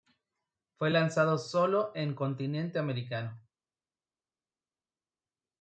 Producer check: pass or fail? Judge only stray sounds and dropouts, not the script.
pass